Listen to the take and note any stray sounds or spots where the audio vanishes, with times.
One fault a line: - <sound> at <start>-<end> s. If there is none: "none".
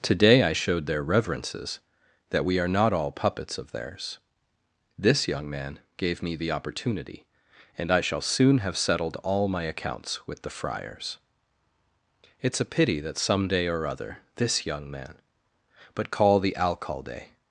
none